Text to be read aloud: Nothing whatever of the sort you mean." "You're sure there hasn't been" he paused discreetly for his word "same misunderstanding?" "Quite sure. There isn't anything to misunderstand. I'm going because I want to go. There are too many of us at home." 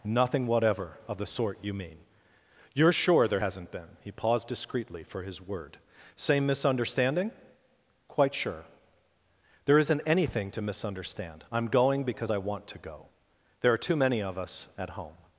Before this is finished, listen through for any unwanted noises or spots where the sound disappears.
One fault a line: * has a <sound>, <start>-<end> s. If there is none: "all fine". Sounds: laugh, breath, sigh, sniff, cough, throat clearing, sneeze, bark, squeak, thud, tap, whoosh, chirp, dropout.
all fine